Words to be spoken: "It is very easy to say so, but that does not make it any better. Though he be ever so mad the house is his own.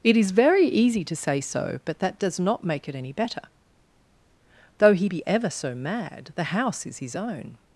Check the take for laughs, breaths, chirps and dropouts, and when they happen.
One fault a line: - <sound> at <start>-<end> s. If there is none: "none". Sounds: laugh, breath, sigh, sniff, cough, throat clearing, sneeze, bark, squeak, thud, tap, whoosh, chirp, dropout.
none